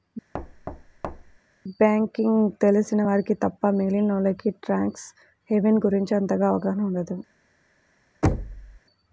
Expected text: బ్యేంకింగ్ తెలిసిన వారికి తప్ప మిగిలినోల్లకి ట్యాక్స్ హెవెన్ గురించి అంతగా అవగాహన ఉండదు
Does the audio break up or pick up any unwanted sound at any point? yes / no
yes